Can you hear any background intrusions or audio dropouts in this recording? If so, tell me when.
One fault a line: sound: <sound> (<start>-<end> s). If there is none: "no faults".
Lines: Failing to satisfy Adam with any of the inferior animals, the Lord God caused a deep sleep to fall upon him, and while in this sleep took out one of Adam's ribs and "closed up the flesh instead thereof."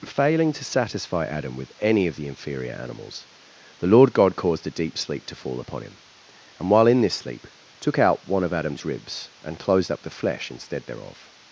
no faults